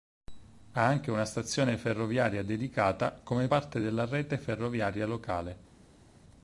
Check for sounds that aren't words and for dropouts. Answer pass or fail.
pass